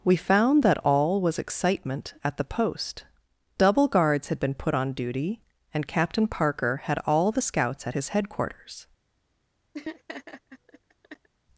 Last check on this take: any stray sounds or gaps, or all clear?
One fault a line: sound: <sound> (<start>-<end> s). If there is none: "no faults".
sound: laugh (9.7-11.3 s)